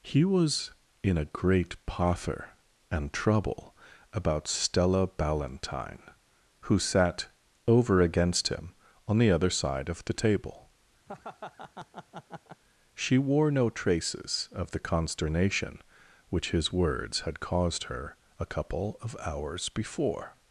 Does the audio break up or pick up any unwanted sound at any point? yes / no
yes